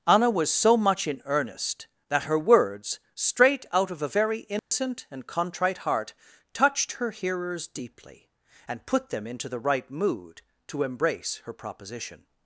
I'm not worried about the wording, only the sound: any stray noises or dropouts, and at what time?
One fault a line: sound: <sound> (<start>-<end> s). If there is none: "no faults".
sound: dropout (4.6-4.7 s)